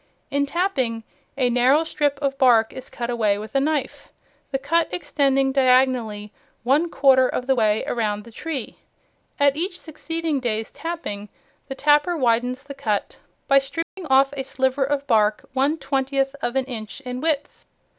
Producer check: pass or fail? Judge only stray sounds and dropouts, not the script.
fail